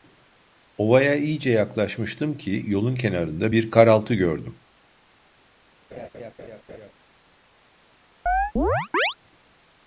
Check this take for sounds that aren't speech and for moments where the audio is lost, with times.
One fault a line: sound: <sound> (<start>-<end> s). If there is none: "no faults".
sound: laugh (5.9-6.9 s)
sound: chirp (8.3-9.2 s)